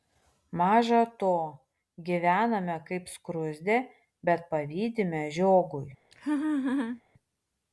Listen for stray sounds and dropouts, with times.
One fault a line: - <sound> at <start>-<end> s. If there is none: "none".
- laugh at 6.1-7.0 s